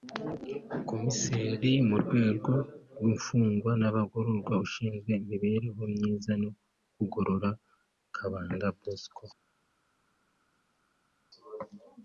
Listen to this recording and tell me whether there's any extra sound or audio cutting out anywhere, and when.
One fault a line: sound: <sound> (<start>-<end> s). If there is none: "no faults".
no faults